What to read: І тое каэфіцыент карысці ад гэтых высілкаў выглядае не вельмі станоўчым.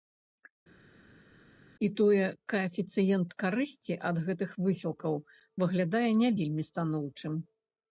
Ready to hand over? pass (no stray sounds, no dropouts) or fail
pass